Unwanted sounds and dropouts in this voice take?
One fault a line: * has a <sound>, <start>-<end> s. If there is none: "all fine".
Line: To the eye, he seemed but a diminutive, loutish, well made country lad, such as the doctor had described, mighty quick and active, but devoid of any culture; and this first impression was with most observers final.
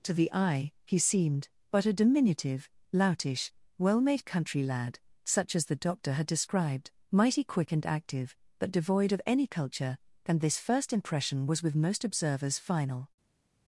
all fine